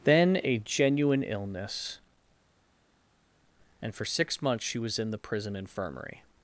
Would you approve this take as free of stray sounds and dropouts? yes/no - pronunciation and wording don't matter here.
yes